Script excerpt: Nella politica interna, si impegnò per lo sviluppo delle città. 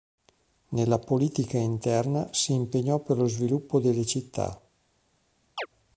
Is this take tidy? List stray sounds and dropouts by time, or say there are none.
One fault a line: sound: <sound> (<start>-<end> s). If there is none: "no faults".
sound: chirp (5.6-5.7 s)